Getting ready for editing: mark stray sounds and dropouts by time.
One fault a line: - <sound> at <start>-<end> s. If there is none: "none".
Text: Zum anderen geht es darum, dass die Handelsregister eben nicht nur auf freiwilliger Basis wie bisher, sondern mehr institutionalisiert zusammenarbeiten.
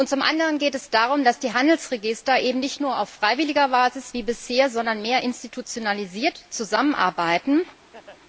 - laugh at 7.9-8.2 s